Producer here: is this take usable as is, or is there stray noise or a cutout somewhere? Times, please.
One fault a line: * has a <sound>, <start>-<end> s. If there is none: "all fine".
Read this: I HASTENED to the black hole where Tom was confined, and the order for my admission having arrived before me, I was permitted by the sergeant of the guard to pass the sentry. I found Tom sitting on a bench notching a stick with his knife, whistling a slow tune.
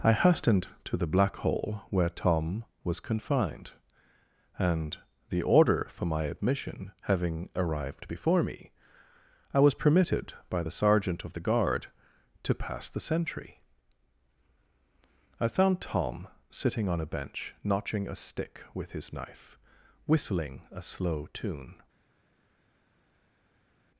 all fine